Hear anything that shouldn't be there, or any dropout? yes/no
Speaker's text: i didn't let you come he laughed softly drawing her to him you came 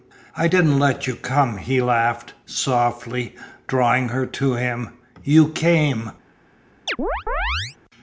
yes